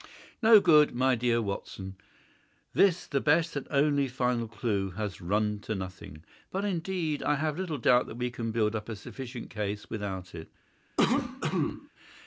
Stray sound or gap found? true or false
true